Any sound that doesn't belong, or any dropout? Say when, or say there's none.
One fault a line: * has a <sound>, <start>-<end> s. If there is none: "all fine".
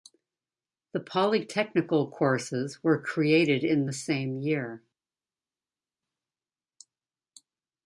all fine